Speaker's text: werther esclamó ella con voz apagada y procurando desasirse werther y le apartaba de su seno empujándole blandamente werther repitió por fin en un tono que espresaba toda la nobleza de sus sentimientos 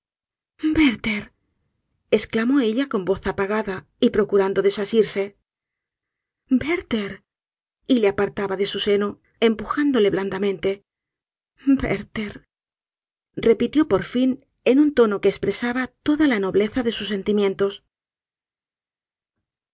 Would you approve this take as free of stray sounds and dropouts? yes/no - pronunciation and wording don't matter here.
yes